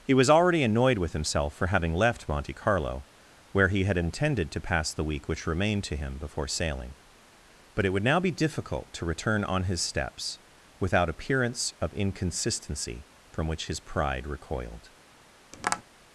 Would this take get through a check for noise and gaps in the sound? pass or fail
fail